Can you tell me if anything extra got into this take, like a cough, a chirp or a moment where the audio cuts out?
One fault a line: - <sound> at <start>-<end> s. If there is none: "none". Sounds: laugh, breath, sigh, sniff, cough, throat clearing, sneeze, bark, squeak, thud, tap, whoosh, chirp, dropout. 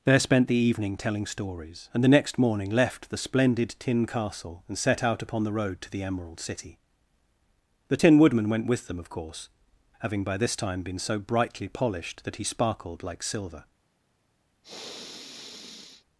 - sniff at 14.6-16.1 s